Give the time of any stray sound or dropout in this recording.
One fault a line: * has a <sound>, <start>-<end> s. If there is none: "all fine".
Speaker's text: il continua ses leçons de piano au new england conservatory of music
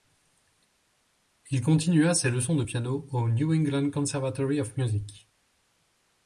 all fine